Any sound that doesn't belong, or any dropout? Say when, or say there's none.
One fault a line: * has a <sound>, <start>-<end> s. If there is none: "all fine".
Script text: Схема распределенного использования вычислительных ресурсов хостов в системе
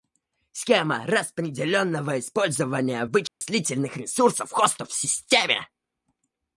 * has a dropout, 3.3-3.4 s